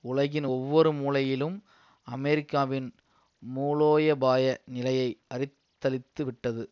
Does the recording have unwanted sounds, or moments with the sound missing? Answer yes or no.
no